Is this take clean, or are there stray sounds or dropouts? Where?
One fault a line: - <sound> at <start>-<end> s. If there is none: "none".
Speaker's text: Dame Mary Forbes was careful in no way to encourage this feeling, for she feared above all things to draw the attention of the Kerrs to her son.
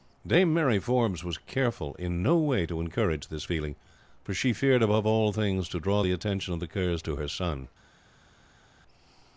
none